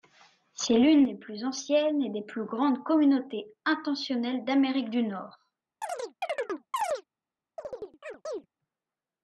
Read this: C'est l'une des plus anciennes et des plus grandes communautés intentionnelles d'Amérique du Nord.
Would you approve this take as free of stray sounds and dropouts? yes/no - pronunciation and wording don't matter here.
no